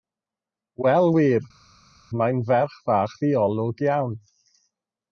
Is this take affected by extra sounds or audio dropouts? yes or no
no